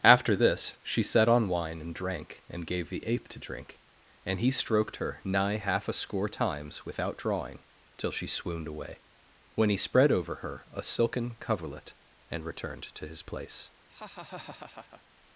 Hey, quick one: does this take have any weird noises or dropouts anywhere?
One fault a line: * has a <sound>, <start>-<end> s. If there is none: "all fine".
* has a laugh, 13.9-15.0 s